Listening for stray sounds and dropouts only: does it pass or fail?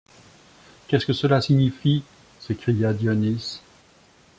pass